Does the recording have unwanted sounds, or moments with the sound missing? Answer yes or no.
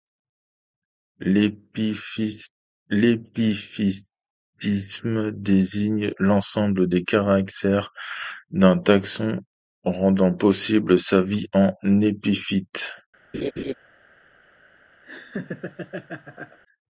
yes